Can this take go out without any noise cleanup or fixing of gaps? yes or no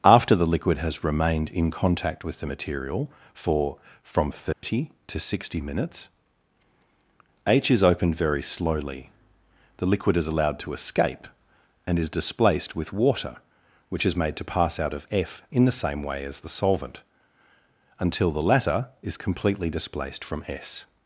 no